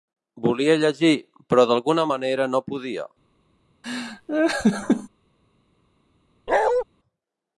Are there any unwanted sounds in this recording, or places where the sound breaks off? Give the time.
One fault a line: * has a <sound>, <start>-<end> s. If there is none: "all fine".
* has a laugh, 3.8-5.1 s
* has a bark, 6.5-6.8 s